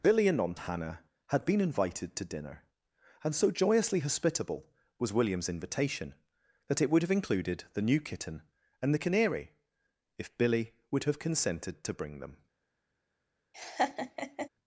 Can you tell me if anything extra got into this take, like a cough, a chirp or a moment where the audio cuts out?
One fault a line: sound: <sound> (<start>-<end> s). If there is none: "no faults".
sound: laugh (13.5-14.5 s)